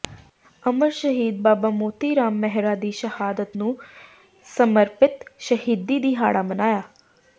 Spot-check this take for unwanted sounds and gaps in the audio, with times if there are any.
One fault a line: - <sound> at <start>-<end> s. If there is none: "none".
none